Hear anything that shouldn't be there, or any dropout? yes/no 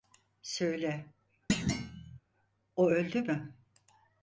yes